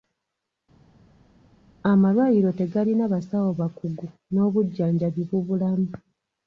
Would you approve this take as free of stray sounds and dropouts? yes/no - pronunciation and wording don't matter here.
yes